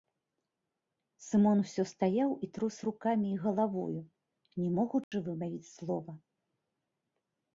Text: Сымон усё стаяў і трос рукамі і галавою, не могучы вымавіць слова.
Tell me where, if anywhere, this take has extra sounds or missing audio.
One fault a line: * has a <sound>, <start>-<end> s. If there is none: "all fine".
* has a dropout, 5.0-5.1 s